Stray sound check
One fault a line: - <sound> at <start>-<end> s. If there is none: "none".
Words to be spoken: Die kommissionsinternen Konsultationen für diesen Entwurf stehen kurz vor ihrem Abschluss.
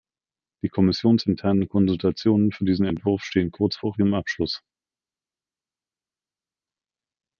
none